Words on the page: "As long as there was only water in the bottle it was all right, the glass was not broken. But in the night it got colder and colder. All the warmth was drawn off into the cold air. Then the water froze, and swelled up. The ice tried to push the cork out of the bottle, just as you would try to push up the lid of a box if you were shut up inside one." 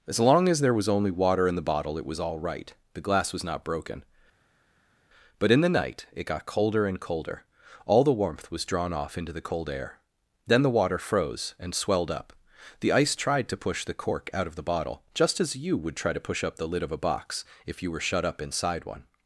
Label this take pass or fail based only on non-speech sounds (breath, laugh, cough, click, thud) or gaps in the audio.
pass